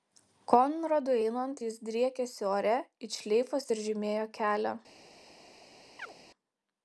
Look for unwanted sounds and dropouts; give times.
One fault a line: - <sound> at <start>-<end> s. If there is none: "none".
- chirp at 6.0-6.1 s